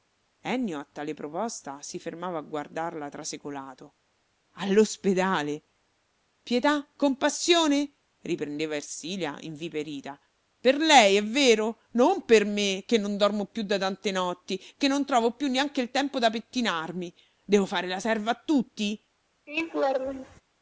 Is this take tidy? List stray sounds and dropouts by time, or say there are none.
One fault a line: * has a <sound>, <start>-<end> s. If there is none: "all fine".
* has a laugh, 19.5-20.4 s